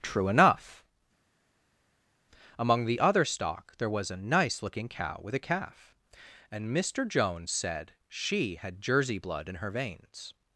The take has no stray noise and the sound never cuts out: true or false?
true